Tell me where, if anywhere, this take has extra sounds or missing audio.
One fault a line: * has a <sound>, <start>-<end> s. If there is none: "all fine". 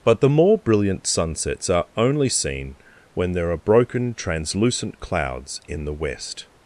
all fine